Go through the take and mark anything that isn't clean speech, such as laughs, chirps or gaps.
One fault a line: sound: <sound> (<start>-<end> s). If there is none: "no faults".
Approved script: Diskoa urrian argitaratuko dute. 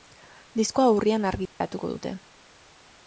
sound: dropout (1.5-1.6 s)